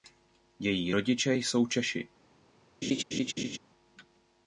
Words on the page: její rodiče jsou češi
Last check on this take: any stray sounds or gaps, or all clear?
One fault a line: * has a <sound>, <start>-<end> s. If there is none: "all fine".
* has a laugh, 2.8-3.6 s